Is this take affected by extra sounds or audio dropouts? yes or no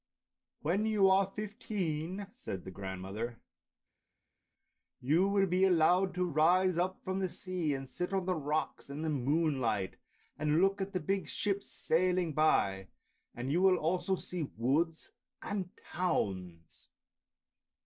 no